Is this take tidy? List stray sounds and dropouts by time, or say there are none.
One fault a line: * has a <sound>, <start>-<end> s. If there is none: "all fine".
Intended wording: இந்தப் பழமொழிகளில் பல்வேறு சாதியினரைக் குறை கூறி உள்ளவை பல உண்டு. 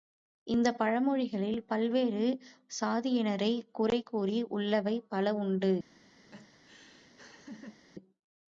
* has a laugh, 6.3-7.8 s